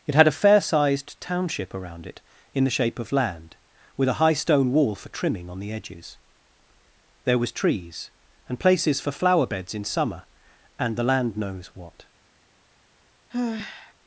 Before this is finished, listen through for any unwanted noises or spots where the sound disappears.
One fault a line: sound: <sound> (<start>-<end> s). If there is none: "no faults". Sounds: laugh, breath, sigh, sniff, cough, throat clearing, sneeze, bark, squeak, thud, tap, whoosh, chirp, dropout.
sound: sigh (13.3-13.9 s)